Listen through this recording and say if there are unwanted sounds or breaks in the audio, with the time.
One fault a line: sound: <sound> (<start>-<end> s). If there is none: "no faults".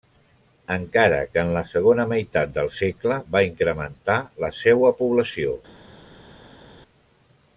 no faults